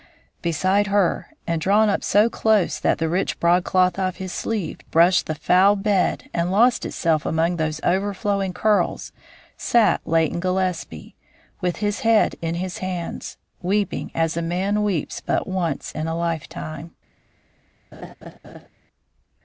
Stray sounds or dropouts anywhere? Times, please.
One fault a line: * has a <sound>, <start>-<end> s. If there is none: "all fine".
* has a laugh, 17.9-18.7 s